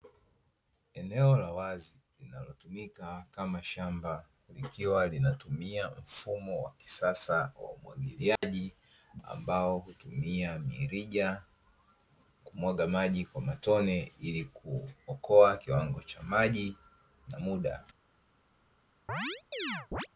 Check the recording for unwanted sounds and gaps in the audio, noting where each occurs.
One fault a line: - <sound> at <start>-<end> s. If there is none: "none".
- dropout at 8.4-8.4 s
- chirp at 19.1-20.1 s